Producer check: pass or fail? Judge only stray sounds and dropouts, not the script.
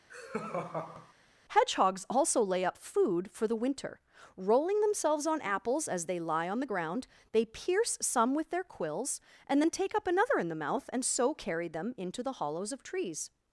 fail